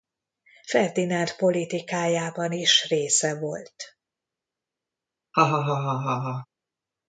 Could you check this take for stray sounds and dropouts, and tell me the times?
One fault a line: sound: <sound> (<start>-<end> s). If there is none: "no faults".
sound: laugh (5.3-6.5 s)